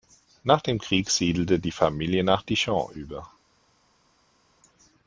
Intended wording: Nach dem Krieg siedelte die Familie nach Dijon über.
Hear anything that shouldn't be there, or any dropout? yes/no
no